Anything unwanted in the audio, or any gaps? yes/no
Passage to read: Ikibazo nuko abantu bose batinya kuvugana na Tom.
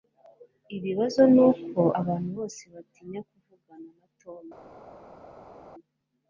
no